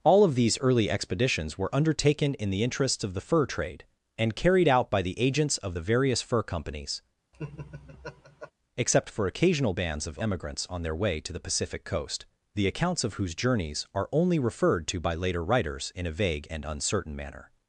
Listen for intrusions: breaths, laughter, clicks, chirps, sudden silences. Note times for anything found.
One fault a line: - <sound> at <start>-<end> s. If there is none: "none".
- laugh at 7.3-8.5 s